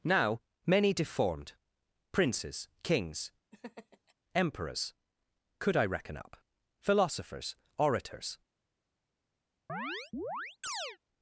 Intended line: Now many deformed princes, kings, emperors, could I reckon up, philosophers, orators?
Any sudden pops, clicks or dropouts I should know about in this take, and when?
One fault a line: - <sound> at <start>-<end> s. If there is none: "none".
- laugh at 3.5-4.1 s
- chirp at 9.7-11.0 s